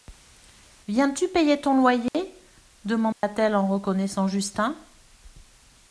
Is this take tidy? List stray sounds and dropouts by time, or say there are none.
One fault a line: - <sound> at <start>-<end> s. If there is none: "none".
- dropout at 2.1-2.1 s
- dropout at 3.1-3.2 s